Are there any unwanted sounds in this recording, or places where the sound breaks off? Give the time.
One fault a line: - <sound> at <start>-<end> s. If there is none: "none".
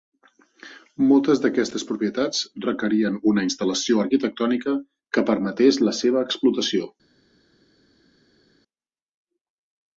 none